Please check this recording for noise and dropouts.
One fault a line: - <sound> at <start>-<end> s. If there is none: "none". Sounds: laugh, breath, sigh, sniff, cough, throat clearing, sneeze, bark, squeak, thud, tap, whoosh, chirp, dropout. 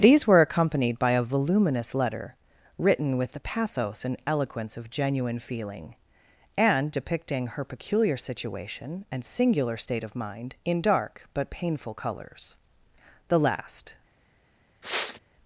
- sniff at 14.8-15.2 s